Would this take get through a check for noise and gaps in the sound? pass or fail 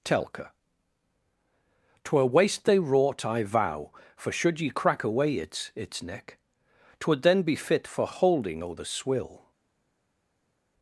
pass